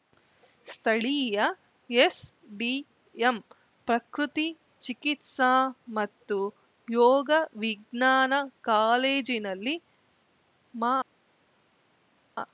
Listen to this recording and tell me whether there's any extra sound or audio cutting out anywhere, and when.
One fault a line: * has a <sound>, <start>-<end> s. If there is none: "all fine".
all fine